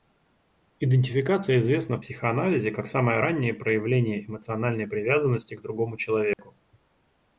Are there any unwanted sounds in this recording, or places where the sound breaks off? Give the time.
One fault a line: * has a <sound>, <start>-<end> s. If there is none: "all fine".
* has a dropout, 6.3-6.4 s